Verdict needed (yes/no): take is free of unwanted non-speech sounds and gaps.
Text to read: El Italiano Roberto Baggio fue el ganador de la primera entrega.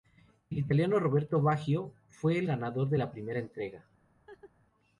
no